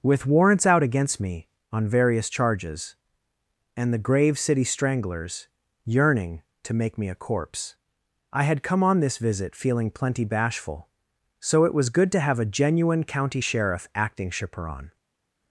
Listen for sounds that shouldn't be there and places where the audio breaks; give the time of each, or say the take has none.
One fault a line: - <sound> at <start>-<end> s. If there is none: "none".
none